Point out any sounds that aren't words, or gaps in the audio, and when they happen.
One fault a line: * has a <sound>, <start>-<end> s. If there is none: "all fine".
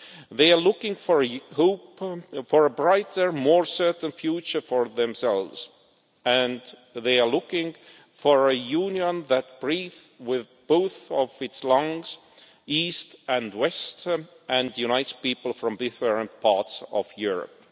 all fine